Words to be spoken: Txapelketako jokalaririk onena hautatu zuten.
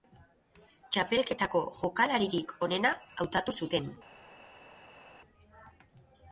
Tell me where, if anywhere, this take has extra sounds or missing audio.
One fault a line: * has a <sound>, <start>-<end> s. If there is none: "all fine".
all fine